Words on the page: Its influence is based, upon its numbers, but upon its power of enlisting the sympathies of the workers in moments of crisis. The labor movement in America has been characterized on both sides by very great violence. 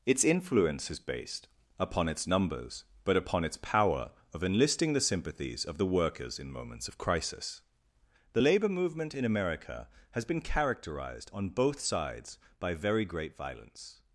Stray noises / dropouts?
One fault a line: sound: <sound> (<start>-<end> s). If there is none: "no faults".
no faults